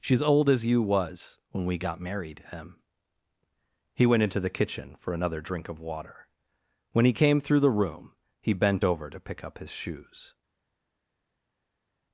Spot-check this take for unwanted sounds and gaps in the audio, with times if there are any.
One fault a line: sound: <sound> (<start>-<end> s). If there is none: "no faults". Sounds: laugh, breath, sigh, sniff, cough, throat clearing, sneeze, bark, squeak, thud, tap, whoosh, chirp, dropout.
no faults